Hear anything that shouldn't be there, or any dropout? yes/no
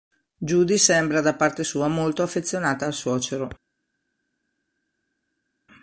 no